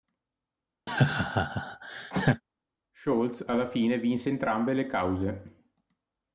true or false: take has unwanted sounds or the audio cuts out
true